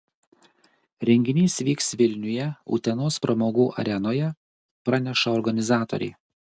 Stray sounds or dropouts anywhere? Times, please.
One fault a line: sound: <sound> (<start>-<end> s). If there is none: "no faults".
no faults